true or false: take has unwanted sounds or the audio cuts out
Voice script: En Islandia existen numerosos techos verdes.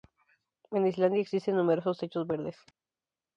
false